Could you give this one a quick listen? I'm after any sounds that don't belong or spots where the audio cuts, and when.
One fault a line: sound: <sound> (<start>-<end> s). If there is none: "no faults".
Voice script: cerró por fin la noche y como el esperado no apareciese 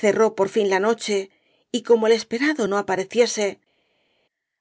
no faults